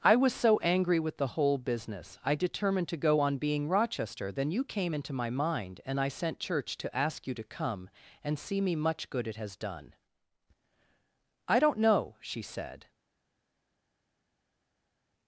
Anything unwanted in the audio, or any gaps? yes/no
no